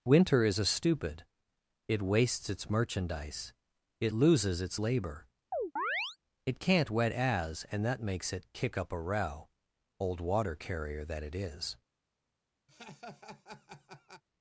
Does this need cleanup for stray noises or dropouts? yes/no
yes